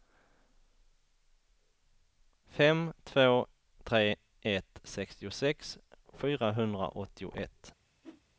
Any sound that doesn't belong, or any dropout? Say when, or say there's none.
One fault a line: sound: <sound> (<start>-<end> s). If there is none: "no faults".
sound: whoosh (8.0-8.2 s)